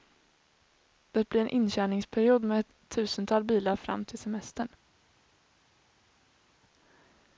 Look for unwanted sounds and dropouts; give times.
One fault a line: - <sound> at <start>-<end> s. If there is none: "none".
none